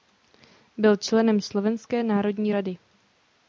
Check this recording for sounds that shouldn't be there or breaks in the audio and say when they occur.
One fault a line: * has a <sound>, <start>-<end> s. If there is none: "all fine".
all fine